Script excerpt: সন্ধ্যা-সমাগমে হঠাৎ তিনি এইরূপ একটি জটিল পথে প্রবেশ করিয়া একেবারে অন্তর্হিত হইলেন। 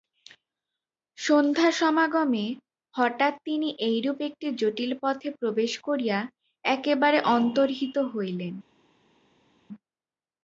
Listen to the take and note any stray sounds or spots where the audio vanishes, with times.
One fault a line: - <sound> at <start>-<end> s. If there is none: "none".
none